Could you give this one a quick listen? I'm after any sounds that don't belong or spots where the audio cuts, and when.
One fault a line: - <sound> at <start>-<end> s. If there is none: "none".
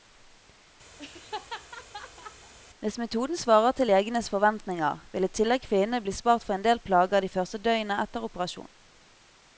- laugh at 1.0-2.5 s